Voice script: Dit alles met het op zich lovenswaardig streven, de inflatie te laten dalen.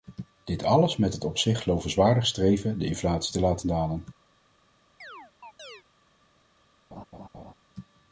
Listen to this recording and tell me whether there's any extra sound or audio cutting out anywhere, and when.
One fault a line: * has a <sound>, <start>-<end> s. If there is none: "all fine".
* has a chirp, 5.0-5.8 s
* has a laugh, 6.9-7.5 s